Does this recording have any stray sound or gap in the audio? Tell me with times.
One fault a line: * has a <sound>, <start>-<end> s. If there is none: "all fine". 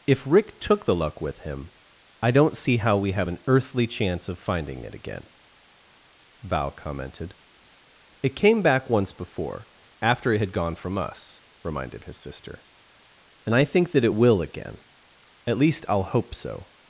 all fine